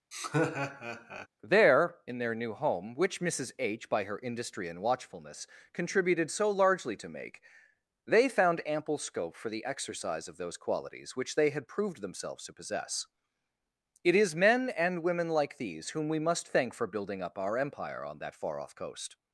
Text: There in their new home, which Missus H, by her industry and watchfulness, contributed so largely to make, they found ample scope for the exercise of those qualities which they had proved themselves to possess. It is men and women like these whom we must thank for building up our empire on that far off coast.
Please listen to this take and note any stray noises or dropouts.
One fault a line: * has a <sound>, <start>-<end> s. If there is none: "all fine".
* has a laugh, 0.1-1.3 s